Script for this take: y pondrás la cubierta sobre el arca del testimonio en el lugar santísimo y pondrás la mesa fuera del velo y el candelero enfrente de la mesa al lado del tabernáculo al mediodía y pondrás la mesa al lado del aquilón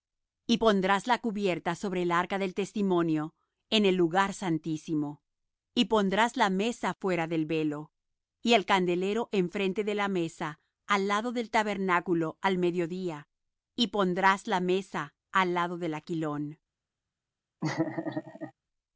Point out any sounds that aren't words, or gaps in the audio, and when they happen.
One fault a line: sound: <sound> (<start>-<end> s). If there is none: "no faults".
sound: laugh (17.6-18.5 s)